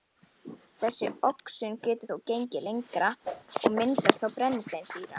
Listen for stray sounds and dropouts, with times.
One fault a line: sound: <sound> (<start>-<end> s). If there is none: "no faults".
sound: whoosh (3.2-3.4 s)